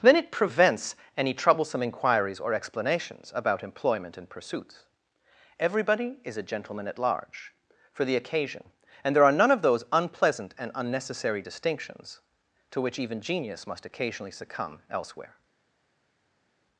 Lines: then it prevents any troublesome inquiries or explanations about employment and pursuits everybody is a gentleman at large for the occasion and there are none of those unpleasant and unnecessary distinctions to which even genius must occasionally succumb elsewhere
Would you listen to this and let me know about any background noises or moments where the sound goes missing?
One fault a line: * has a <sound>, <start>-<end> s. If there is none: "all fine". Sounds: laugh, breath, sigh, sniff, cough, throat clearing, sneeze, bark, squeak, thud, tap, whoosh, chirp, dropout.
all fine